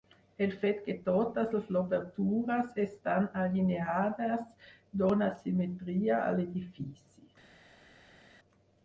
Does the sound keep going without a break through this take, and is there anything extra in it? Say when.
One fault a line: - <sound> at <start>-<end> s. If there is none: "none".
none